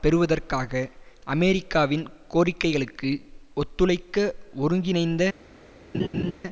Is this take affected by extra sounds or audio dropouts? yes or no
yes